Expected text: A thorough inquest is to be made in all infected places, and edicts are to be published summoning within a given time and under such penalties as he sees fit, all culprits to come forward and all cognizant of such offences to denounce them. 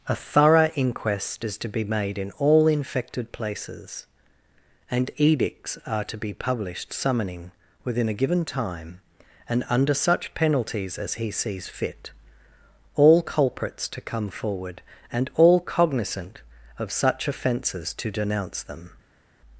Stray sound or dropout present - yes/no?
no